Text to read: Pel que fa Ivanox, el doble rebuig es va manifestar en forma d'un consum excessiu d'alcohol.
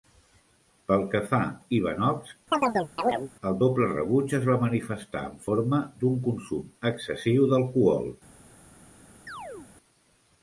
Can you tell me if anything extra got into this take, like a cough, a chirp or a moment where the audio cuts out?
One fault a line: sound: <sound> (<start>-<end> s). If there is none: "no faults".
sound: chirp (2.5-3.3 s)
sound: chirp (9.3-9.7 s)